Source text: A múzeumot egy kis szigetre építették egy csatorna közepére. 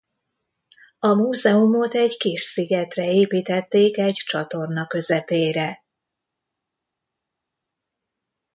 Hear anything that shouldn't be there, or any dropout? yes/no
no